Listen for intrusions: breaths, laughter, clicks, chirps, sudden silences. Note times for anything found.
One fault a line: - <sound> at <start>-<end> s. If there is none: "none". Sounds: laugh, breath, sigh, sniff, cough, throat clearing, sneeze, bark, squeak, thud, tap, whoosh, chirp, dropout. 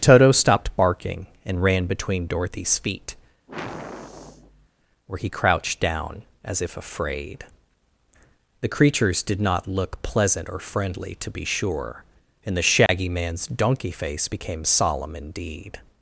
- sigh at 3.5-4.7 s
- dropout at 12.9-12.9 s